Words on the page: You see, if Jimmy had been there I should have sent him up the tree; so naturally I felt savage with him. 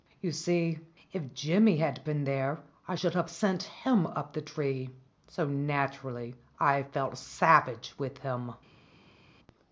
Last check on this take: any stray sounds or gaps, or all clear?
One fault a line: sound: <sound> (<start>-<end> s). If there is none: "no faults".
no faults